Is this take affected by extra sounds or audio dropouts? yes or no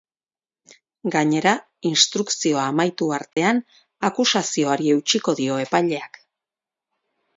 yes